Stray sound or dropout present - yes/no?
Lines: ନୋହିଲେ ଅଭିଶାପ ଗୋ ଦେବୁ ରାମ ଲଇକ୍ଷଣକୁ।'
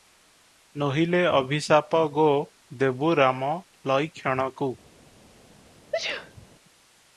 yes